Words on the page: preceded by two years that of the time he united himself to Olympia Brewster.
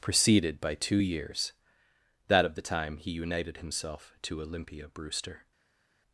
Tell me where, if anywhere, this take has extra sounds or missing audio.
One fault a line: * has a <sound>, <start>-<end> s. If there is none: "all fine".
all fine